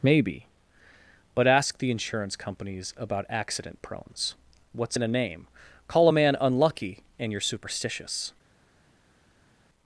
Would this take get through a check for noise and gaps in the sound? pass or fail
pass